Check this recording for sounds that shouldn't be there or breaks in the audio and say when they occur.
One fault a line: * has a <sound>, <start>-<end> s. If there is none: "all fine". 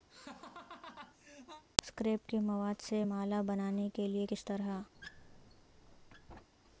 * has a laugh, 0.1-1.6 s
* has a squeak, 4.9-6.5 s